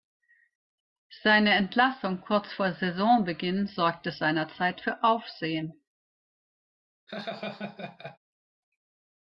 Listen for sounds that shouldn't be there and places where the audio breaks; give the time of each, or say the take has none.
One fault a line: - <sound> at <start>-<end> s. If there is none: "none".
- laugh at 7.1-8.2 s